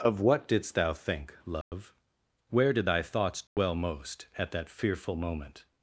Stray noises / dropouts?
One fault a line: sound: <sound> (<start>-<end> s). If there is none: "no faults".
sound: dropout (1.6-1.7 s)
sound: dropout (3.5-3.6 s)